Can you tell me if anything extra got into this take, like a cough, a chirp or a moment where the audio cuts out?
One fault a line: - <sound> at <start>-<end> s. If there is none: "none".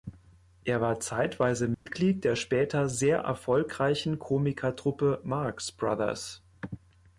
- dropout at 1.7-1.9 s